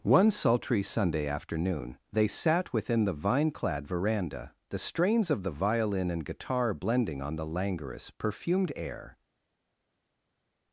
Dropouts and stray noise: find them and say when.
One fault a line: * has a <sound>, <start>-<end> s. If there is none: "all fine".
all fine